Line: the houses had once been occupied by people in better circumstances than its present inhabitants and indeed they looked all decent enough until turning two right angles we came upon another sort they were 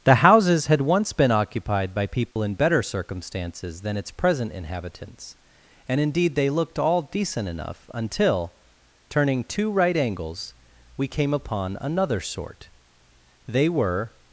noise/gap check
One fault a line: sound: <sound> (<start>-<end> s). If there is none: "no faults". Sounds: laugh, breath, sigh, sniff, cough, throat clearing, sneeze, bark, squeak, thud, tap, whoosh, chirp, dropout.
sound: dropout (2.3-2.4 s)